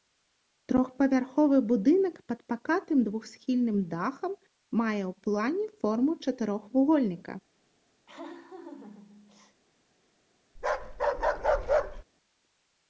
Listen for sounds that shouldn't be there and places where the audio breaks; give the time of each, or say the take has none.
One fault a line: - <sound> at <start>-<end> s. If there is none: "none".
- laugh at 8.1-9.6 s
- bark at 10.6-12.0 s